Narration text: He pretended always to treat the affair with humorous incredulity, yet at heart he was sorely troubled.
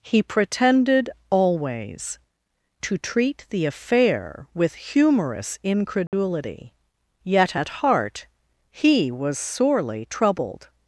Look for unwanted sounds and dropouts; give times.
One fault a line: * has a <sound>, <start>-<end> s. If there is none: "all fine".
* has a dropout, 6.1-6.1 s